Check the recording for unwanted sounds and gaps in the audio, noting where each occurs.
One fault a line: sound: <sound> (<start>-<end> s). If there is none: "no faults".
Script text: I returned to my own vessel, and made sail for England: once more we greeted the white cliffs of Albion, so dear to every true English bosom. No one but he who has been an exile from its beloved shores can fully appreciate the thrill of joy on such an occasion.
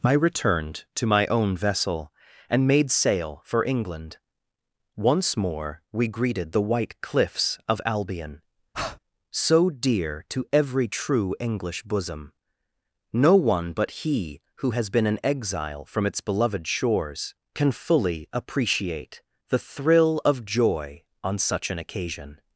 sound: breath (8.7-9.0 s)